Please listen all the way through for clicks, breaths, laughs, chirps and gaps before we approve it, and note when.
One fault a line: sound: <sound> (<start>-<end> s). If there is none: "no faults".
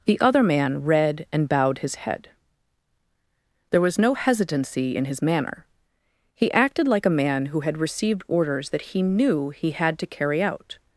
no faults